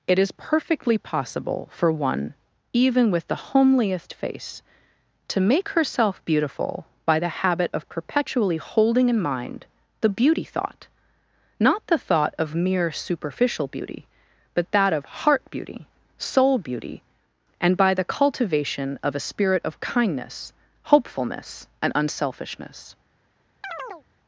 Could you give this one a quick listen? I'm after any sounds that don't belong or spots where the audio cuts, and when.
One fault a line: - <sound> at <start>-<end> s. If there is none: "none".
- chirp at 23.6-24.0 s